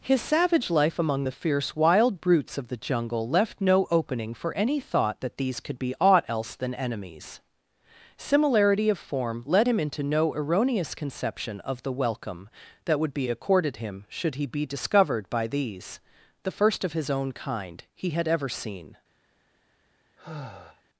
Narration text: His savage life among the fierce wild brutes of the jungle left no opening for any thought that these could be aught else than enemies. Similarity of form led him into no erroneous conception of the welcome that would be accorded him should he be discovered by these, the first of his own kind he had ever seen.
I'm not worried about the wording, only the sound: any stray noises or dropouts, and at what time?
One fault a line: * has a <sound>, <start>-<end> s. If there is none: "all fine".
* has a sigh, 20.2-20.8 s